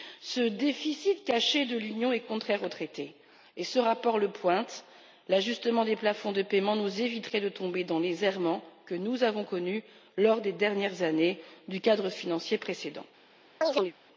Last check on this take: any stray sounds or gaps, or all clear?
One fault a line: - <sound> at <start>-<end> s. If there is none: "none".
- chirp at 13.6-13.9 s